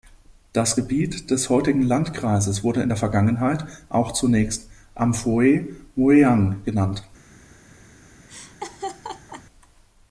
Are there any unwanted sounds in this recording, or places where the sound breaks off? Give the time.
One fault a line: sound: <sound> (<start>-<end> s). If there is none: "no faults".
sound: laugh (8.3-9.4 s)